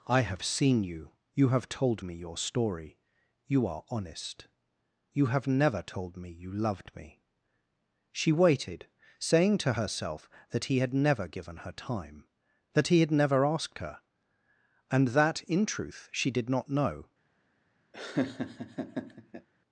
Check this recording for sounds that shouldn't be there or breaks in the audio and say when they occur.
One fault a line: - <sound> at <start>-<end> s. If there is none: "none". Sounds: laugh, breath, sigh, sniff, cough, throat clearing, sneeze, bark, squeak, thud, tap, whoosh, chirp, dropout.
- laugh at 17.9-19.5 s